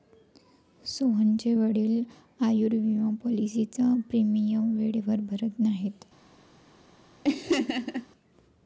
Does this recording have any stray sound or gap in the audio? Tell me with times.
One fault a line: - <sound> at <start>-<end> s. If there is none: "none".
- laugh at 7.2-8.1 s